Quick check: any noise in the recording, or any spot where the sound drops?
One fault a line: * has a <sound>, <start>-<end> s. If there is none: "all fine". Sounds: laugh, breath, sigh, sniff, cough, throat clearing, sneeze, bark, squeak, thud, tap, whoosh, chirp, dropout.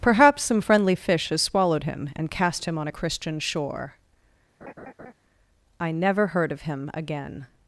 * has a laugh, 4.6-5.1 s